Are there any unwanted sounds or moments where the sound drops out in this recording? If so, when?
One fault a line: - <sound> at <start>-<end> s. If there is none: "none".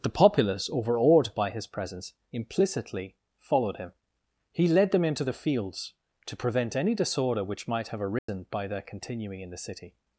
- dropout at 8.2-8.3 s